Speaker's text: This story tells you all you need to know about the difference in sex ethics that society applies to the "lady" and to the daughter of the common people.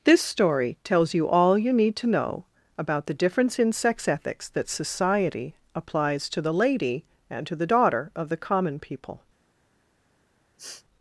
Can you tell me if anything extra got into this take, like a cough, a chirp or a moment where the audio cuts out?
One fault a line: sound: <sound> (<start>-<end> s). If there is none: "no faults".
sound: sniff (10.6-10.8 s)